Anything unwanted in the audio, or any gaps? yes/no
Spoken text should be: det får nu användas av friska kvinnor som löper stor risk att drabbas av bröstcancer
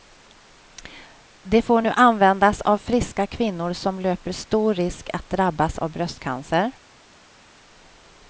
no